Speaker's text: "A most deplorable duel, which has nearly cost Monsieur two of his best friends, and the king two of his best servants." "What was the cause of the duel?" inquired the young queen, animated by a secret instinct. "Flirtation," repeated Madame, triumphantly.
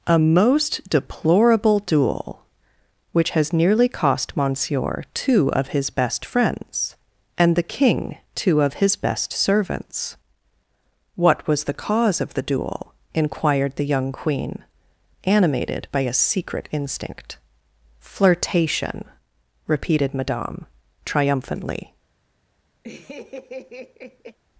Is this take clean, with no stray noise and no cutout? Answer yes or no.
no